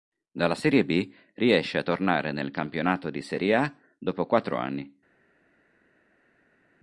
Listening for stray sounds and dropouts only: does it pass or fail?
pass